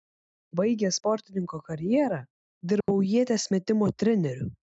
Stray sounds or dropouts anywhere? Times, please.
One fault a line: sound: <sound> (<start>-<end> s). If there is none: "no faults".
sound: dropout (2.8-2.9 s)